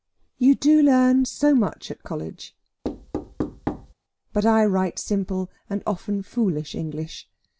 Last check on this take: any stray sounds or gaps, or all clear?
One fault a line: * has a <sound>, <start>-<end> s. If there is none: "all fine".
* has a thud, 2.8-3.9 s